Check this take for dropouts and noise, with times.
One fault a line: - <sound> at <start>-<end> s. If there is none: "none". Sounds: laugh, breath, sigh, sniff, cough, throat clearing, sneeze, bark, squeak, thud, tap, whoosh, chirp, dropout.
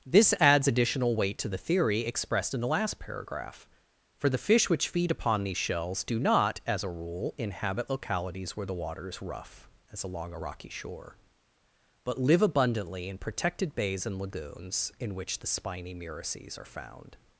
none